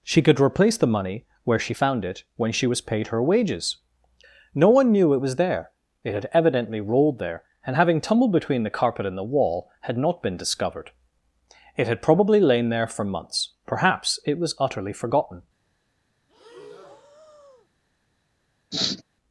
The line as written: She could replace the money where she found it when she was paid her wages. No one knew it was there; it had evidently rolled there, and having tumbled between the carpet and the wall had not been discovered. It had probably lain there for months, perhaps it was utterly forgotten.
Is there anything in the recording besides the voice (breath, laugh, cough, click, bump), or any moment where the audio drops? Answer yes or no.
yes